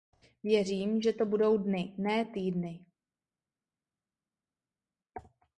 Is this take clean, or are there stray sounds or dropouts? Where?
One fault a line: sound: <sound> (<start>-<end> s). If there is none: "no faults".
no faults